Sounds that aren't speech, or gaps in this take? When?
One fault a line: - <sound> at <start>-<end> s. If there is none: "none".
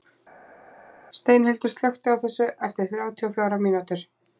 none